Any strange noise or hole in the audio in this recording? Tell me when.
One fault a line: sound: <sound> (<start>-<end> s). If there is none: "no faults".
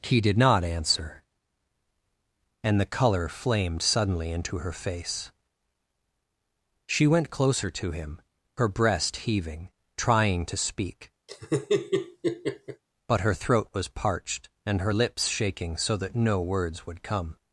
sound: laugh (11.3-12.8 s)